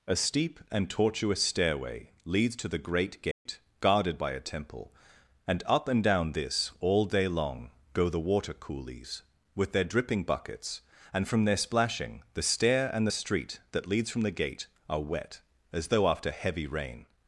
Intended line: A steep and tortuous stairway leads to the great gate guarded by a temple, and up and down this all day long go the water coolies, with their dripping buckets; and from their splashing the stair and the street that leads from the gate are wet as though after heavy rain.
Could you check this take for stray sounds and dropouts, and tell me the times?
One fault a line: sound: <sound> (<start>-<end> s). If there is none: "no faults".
sound: dropout (3.3-3.5 s)